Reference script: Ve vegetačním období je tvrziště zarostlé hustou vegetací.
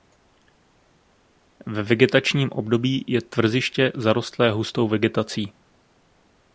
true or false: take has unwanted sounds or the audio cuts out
false